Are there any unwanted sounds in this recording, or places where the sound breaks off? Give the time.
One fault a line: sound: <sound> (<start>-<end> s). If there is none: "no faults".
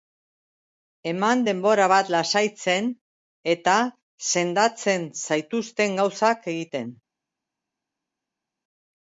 no faults